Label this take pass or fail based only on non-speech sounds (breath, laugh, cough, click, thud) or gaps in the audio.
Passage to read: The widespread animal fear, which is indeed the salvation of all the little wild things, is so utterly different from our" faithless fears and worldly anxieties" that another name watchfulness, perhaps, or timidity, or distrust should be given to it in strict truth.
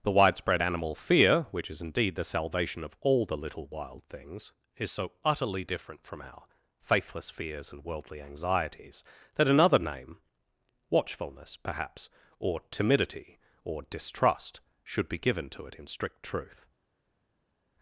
pass